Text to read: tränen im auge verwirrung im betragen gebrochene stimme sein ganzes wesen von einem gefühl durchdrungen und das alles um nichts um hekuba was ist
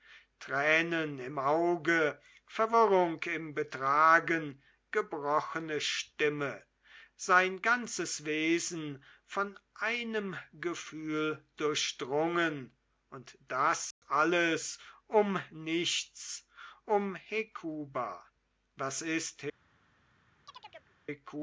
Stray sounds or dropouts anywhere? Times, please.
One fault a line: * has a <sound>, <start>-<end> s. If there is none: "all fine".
* has a dropout, 13.9-14.0 s
* has a chirp, 20.5-20.9 s